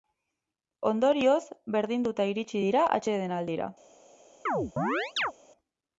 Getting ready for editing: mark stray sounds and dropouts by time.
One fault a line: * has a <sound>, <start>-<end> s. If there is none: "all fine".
* has a chirp, 4.5-5.3 s